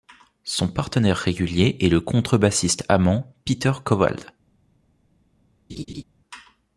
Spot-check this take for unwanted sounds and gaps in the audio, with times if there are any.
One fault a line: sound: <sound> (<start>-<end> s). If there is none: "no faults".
sound: laugh (5.7-6.0 s)